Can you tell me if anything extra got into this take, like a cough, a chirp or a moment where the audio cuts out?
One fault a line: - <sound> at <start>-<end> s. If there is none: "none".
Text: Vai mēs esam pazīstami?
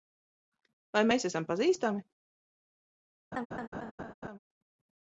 - laugh at 3.3-4.4 s